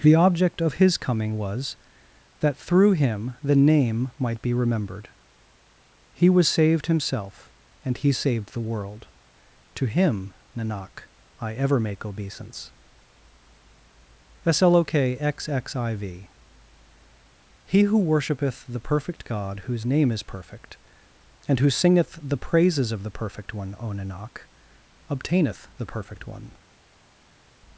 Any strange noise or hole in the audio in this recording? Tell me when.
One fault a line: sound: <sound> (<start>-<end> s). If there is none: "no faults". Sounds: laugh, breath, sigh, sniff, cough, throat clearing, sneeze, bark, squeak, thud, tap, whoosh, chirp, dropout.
no faults